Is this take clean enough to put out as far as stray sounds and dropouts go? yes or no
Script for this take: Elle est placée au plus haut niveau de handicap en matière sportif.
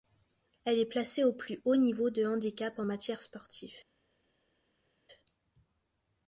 yes